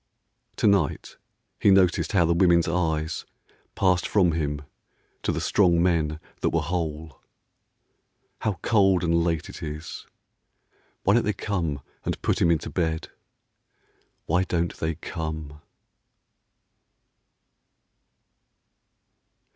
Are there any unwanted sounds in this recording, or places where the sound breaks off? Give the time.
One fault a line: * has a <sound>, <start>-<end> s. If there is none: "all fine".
all fine